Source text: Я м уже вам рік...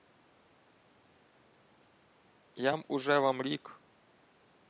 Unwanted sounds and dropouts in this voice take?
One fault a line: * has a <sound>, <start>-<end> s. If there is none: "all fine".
all fine